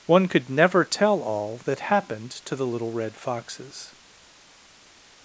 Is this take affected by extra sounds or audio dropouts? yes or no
no